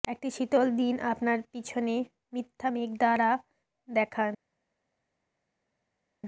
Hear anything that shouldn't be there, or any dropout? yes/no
no